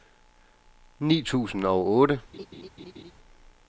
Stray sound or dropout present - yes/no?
yes